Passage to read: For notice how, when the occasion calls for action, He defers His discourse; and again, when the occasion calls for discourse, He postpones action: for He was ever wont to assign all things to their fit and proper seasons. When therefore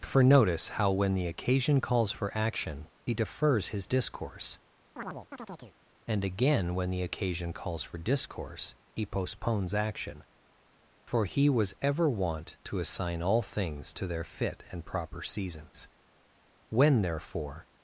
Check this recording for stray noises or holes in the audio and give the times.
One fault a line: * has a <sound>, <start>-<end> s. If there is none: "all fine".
* has a chirp, 5.0-5.7 s